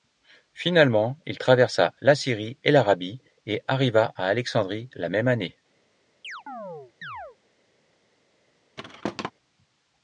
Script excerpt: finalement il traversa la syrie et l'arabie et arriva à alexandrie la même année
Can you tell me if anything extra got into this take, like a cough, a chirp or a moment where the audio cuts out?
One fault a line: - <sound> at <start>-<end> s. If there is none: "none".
- chirp at 6.2-7.4 s
- thud at 8.8-9.3 s